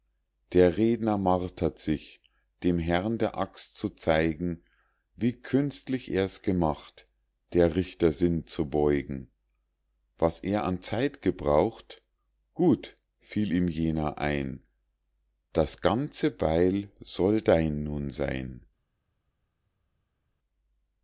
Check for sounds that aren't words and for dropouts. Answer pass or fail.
pass